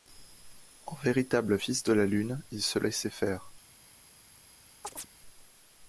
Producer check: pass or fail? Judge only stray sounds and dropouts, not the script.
fail